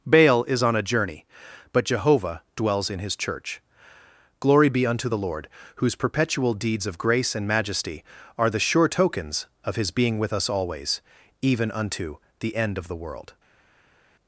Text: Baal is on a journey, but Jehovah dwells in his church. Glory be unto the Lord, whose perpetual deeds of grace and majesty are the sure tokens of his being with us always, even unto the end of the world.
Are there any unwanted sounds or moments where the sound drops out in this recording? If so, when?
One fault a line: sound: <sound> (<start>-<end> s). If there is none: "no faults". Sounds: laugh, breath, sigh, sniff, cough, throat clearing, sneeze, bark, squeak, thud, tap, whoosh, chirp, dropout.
no faults